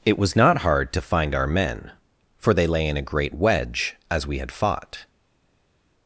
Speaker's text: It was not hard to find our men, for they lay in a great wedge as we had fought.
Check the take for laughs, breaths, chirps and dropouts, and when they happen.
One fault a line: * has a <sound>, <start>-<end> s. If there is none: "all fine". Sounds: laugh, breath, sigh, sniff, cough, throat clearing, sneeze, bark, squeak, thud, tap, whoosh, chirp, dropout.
all fine